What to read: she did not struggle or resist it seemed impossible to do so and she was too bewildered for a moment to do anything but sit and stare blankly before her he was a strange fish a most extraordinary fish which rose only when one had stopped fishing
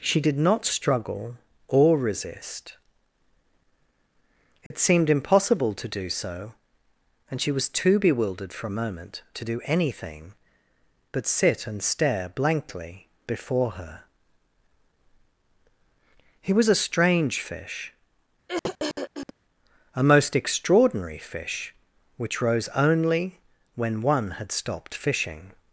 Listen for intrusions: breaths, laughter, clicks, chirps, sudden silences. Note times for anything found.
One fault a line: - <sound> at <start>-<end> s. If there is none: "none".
- dropout at 4.7-4.7 s
- throat clearing at 18.5-19.3 s